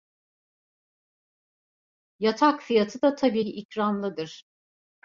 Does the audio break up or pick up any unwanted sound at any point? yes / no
no